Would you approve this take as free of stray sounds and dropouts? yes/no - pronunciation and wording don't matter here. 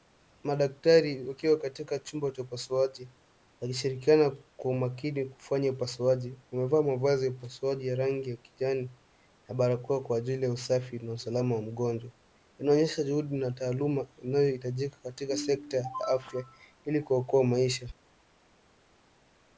yes